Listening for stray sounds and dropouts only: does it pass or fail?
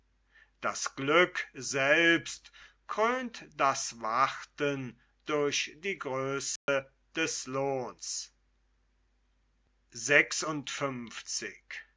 fail